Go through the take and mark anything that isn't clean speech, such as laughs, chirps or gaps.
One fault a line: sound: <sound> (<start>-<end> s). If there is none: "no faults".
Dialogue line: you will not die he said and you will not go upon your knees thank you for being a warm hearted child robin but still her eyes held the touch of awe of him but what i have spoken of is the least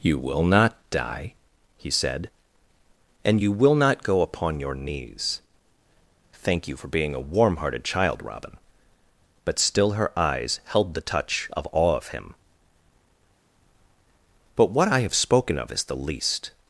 no faults